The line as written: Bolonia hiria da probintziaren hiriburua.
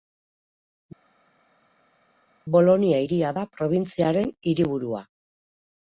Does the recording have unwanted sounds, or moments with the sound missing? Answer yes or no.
no